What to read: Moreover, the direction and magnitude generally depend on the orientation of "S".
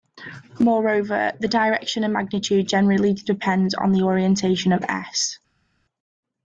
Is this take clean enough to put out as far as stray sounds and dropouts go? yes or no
yes